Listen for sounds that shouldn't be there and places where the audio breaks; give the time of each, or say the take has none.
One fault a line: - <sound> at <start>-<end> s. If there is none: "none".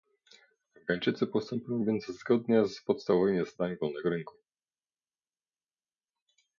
none